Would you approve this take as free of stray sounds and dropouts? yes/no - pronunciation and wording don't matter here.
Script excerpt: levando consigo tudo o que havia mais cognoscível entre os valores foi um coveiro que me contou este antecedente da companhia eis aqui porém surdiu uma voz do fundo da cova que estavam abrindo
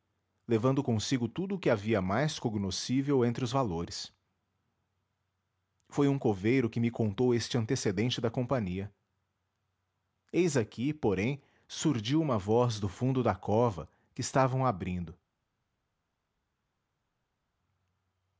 yes